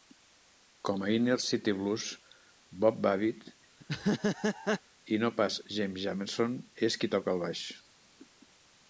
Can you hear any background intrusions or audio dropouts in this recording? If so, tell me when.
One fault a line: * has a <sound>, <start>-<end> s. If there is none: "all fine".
* has a laugh, 3.8-4.8 s